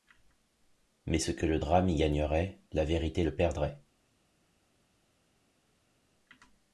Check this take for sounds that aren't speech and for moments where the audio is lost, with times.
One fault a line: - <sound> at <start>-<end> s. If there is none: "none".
none